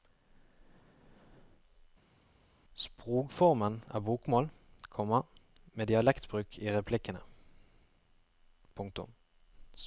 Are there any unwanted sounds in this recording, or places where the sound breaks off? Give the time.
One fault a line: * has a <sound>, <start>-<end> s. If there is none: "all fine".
all fine